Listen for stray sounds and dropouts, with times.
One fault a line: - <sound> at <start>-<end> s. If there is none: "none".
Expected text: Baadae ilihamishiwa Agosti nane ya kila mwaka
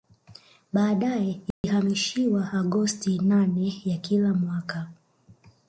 - dropout at 1.5-1.6 s